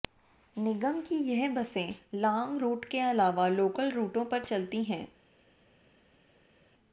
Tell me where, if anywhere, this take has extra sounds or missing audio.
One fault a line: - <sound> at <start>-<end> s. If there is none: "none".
none